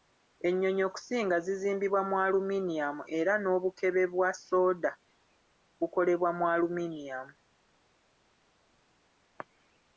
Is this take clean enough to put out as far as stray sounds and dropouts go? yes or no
yes